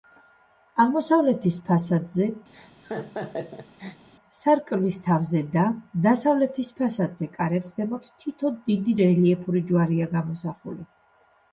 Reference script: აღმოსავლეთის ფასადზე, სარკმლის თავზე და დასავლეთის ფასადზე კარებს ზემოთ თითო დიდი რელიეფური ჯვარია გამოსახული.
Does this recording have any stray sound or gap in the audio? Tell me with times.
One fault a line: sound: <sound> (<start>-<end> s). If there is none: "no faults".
sound: laugh (2.5-4.1 s)